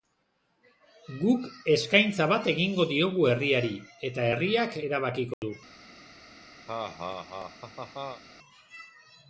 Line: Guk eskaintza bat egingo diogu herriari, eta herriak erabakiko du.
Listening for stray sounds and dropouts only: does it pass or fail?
fail